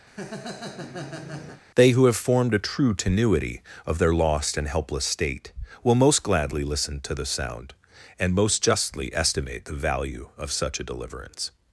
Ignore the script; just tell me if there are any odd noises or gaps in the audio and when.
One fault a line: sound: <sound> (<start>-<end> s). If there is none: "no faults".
sound: laugh (0.1-1.6 s)